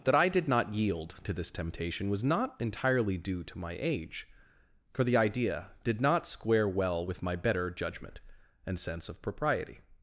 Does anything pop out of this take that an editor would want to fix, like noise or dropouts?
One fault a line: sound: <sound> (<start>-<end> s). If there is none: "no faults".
no faults